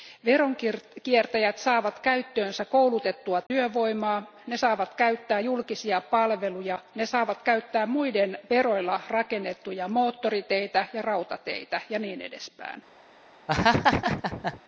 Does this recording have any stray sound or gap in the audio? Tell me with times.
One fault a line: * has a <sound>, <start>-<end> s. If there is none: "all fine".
* has a dropout, 3.5-3.5 s
* has a laugh, 13.5-14.6 s